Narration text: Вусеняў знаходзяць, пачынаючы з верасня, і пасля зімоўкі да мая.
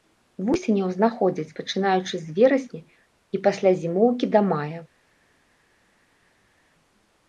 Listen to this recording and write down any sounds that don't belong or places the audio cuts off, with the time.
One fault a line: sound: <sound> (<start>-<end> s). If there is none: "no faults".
no faults